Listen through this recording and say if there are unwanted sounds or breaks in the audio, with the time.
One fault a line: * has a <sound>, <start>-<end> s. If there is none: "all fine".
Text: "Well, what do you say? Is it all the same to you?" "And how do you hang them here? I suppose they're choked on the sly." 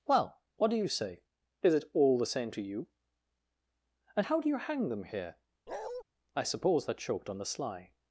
* has a bark, 5.7-6.0 s